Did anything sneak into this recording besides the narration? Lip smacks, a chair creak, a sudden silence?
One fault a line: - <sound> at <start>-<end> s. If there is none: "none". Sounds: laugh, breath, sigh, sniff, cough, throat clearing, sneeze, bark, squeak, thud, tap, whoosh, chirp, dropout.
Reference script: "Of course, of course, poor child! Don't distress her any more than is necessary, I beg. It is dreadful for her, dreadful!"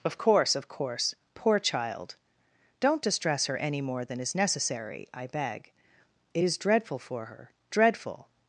none